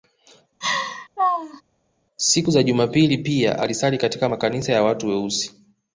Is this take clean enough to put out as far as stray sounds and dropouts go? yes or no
no